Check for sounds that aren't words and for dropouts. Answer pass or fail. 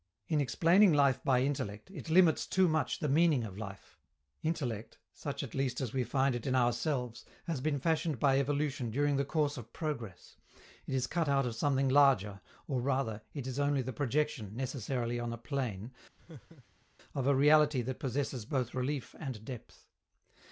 fail